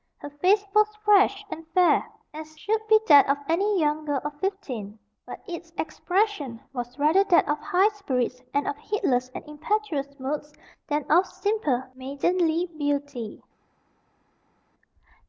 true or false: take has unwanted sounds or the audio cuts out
false